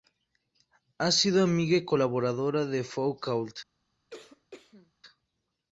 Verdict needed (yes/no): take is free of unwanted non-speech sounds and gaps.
no